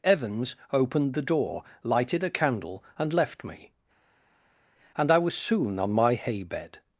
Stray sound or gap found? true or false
false